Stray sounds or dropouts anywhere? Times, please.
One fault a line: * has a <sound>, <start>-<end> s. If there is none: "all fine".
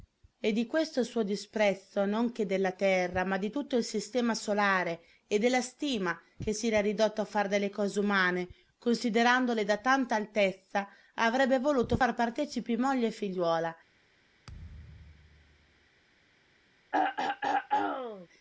* has a thud, 14.5-15.9 s
* has a throat clearing, 16.9-18.3 s